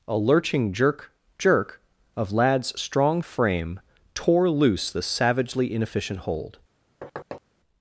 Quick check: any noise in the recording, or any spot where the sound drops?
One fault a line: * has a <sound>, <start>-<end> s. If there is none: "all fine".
* has a thud, 7.0-7.4 s